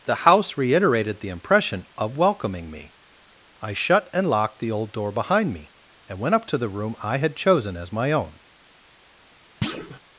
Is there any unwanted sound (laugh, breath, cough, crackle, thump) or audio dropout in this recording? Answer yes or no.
yes